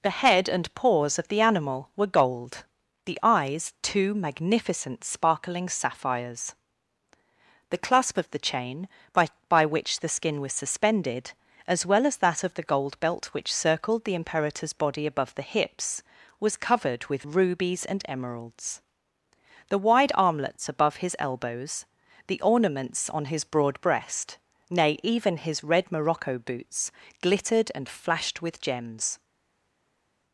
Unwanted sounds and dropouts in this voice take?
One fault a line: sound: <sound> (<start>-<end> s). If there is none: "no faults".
no faults